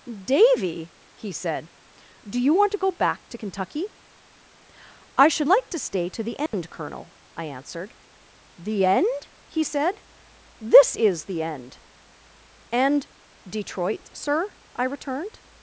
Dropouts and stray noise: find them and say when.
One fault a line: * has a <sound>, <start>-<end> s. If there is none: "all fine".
* has a dropout, 6.5-6.5 s